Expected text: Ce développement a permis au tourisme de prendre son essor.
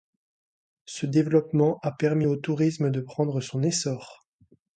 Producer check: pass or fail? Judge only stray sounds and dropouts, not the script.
pass